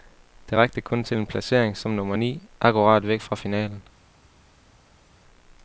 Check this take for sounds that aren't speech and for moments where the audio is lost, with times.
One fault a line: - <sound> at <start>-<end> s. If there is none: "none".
none